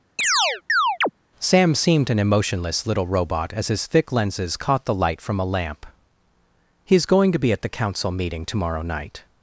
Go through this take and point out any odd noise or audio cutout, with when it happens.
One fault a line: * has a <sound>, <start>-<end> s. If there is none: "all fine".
* has a chirp, 0.2-1.1 s